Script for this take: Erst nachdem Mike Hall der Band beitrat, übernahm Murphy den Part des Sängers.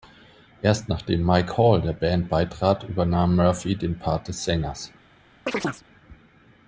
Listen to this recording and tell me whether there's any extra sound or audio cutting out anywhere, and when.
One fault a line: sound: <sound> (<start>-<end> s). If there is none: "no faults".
sound: chirp (5.5-5.8 s)